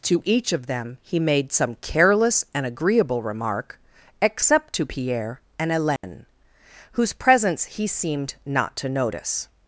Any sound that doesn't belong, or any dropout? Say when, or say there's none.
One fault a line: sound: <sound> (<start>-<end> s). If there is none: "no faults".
sound: dropout (6.0-6.0 s)